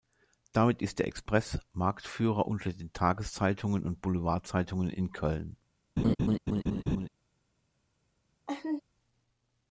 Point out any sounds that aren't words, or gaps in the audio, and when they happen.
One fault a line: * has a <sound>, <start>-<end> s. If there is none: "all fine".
* has a laugh, 6.0-7.1 s
* has a laugh, 8.5-8.8 s